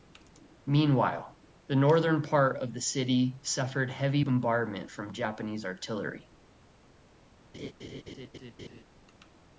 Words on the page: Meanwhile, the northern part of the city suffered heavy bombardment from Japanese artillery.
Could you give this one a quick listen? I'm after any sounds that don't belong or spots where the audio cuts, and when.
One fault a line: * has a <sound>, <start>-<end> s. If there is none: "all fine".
* has a laugh, 7.5-8.8 s